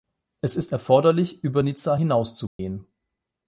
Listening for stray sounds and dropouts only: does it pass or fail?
fail